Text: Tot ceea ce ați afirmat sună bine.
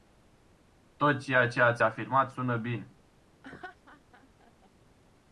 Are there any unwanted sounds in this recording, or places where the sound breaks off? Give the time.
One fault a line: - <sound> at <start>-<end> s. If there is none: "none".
- laugh at 3.4-4.7 s